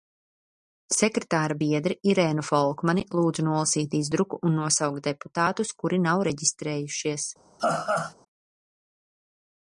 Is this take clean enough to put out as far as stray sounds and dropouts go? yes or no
no